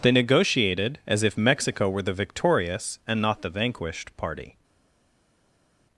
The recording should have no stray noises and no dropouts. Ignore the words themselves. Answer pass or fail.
pass